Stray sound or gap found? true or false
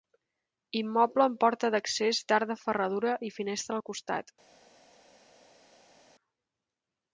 false